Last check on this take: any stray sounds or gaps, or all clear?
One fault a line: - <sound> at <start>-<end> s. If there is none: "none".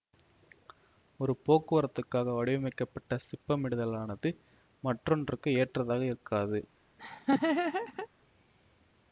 - laugh at 7.0-8.1 s